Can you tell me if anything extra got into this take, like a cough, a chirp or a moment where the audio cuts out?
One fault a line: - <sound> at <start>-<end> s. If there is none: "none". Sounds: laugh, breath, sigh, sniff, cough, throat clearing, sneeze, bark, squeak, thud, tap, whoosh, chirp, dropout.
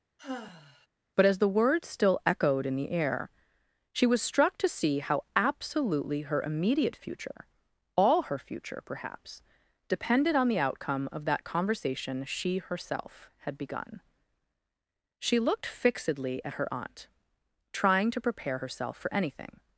- sigh at 0.2-0.9 s